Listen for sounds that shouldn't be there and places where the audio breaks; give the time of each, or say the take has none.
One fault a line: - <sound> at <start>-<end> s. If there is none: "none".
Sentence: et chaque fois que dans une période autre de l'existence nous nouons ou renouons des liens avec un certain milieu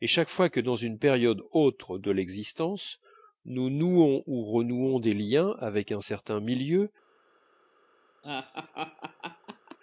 - laugh at 8.2-9.8 s